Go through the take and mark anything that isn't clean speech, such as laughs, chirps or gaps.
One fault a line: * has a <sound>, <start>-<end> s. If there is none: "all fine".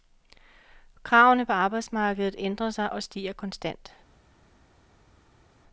all fine